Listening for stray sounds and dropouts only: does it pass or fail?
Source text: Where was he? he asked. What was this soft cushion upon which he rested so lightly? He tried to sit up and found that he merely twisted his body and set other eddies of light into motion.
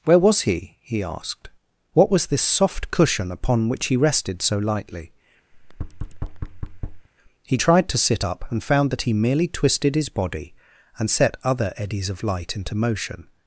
fail